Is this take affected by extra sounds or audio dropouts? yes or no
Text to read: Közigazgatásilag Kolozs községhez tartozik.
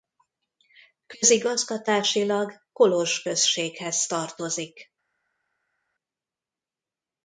no